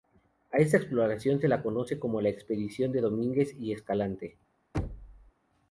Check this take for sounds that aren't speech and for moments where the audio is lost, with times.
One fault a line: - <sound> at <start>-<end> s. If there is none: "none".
- thud at 4.7-5.3 s